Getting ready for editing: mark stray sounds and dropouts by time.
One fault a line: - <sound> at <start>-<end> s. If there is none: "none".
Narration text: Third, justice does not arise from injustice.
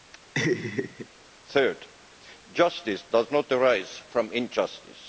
- laugh at 0.3-1.1 s